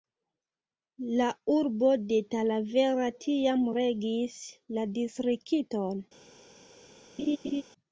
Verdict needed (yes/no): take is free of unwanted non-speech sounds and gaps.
no